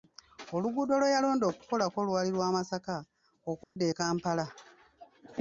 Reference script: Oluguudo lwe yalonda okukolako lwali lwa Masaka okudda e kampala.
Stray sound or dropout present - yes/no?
yes